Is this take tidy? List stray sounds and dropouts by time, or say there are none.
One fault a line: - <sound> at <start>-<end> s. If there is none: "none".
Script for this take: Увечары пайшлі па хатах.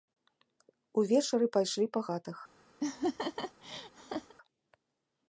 - laugh at 2.8-4.3 s